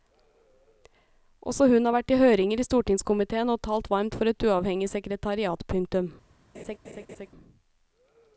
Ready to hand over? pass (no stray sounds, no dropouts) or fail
fail